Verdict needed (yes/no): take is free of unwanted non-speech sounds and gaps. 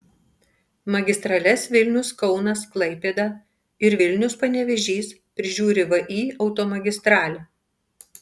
yes